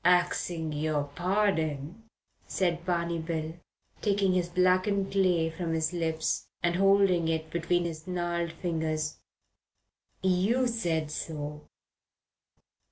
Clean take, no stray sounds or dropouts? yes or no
yes